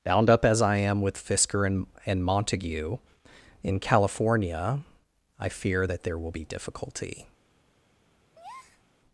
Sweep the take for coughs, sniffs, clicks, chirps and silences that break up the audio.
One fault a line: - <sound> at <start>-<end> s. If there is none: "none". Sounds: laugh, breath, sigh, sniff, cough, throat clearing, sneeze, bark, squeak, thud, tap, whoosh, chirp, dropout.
- breath at 8.3-8.8 s